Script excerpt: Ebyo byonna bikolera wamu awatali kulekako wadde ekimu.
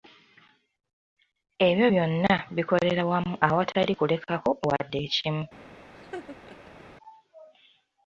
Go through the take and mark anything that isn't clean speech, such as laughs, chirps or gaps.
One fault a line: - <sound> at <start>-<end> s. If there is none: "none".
- laugh at 6.0-6.9 s